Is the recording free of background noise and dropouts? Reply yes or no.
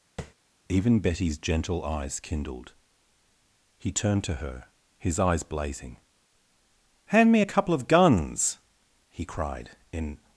no